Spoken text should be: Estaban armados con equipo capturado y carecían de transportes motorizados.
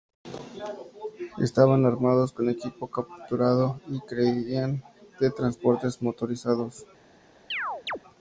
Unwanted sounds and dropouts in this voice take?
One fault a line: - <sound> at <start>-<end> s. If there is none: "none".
- chirp at 7.5-8.0 s